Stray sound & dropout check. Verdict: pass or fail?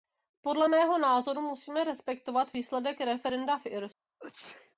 fail